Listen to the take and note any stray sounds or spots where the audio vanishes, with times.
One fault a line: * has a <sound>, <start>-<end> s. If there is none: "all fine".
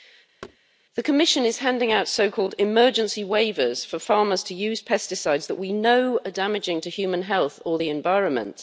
* has a thud, 0.4-0.6 s